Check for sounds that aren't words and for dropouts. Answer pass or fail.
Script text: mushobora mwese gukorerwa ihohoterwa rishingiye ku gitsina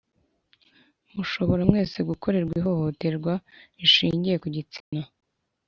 fail